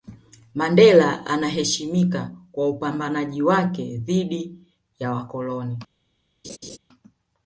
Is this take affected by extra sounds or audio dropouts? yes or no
yes